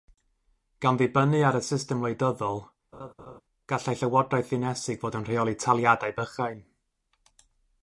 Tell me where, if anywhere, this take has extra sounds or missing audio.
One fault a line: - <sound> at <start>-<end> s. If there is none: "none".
- laugh at 2.9-3.4 s